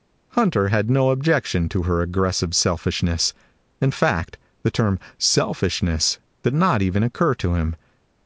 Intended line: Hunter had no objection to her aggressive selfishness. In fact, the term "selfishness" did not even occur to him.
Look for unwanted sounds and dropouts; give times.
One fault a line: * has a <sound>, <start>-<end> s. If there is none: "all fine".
all fine